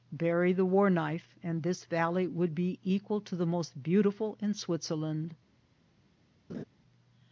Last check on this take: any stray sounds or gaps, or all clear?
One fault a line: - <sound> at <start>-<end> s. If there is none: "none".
- laugh at 6.5-6.6 s